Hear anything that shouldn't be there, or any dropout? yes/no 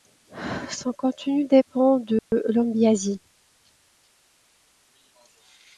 yes